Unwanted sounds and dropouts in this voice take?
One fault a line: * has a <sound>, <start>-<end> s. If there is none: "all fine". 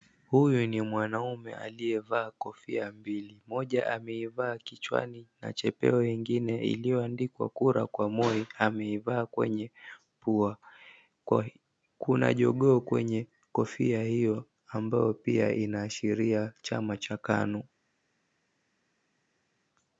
all fine